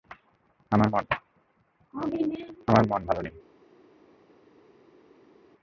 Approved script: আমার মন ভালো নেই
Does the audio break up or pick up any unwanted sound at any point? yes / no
no